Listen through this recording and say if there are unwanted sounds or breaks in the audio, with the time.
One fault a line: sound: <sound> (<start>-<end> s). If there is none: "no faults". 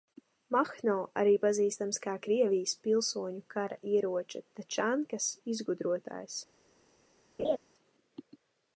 sound: laugh (7.4-7.6 s)